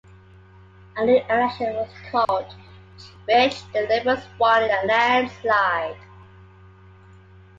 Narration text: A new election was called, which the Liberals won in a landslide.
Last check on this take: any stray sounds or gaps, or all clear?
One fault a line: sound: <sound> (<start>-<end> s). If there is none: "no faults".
sound: dropout (2.2-2.3 s)